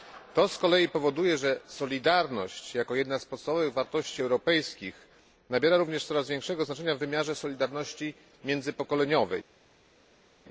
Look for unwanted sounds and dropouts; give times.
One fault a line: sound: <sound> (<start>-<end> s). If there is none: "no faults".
no faults